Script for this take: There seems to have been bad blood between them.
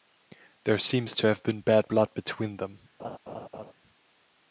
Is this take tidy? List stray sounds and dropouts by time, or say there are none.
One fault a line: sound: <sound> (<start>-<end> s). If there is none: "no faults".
sound: laugh (3.0-3.7 s)